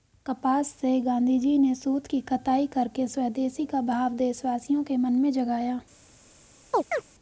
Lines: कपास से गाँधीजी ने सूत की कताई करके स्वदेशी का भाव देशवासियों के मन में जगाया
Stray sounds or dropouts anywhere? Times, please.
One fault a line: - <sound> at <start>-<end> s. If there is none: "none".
- chirp at 6.7-7.1 s